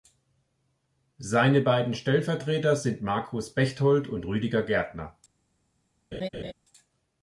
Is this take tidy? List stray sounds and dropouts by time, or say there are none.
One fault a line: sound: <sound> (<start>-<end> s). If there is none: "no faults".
sound: laugh (6.1-6.5 s)